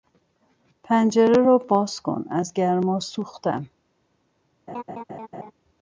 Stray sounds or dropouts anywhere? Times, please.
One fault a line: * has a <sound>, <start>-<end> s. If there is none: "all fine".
* has a laugh, 4.7-5.5 s